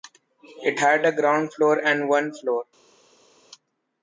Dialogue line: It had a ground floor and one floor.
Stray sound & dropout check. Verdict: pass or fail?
pass